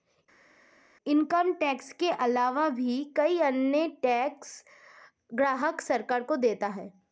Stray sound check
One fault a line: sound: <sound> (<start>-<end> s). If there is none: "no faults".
no faults